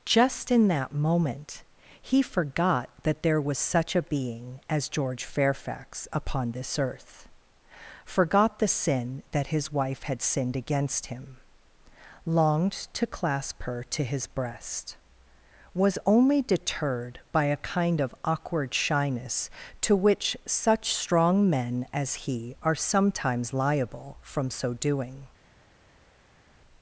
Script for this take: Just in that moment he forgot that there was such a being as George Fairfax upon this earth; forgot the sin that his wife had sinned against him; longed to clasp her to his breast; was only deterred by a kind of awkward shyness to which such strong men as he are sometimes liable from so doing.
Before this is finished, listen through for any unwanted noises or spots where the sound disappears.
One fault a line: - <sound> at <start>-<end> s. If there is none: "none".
none